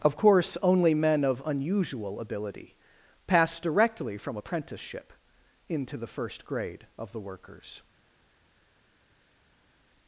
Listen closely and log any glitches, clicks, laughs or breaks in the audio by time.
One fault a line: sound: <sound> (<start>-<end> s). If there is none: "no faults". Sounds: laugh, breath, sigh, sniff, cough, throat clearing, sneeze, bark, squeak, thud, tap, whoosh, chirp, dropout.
no faults